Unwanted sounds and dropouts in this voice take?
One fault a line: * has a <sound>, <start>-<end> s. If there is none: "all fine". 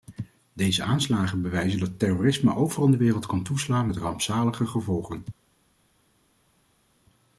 all fine